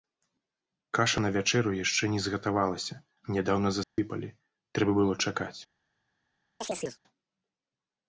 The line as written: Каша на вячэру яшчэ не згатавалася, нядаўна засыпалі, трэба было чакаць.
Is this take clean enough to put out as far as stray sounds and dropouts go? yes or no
no